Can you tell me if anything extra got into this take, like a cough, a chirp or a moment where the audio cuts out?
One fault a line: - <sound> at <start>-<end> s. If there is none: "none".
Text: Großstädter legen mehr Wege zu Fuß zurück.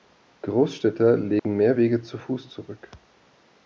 - dropout at 1.4-1.4 s